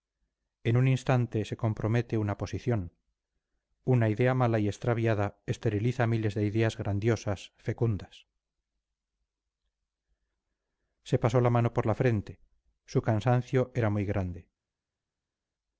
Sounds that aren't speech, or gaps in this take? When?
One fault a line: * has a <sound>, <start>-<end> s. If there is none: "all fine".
all fine